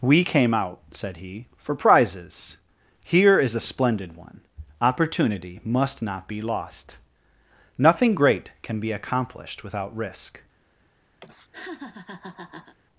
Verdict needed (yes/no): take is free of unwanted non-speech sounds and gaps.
no